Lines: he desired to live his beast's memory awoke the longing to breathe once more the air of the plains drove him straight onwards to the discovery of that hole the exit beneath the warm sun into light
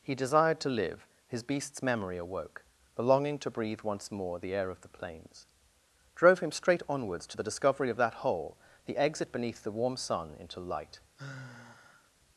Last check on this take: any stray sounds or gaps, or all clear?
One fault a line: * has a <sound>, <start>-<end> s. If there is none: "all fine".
* has a sigh, 11.2-12.1 s